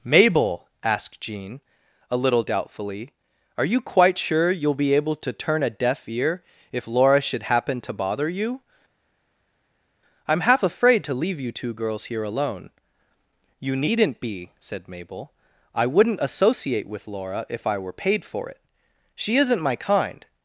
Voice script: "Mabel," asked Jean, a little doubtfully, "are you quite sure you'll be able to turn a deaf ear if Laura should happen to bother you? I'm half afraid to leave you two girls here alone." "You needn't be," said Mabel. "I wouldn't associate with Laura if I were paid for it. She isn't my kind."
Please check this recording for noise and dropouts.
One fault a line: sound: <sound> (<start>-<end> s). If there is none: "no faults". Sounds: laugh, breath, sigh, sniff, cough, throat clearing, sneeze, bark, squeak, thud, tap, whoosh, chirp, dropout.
no faults